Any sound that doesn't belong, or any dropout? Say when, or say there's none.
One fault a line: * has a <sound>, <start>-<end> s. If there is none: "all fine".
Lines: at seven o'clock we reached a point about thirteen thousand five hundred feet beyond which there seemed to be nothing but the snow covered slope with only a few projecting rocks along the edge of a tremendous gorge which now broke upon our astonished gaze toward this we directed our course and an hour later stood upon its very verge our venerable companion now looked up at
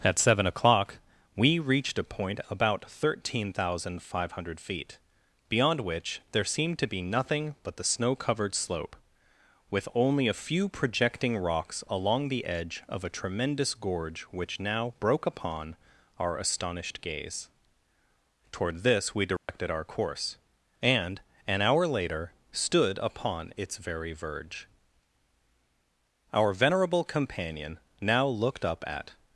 * has a dropout, 19.4-19.5 s